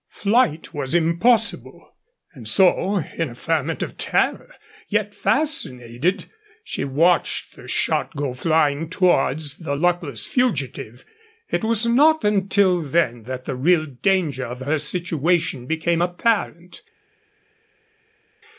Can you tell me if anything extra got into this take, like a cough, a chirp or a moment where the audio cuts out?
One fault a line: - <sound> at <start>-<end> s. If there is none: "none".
none